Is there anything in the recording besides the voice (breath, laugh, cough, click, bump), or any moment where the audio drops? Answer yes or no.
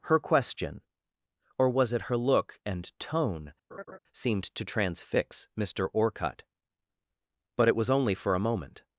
yes